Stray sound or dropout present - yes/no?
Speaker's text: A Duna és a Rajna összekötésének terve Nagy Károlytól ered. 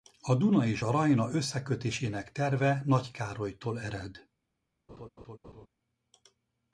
yes